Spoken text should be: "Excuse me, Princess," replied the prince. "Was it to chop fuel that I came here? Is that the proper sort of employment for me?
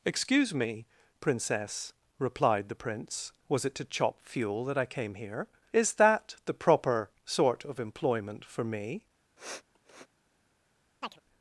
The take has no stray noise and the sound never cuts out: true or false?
false